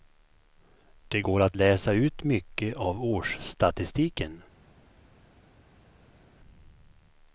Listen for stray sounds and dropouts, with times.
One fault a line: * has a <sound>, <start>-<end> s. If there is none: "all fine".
all fine